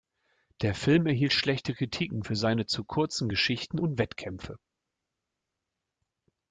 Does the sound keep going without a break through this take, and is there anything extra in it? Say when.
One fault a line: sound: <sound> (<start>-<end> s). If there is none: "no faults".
no faults